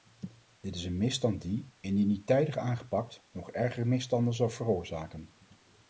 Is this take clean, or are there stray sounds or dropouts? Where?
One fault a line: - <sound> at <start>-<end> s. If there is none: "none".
none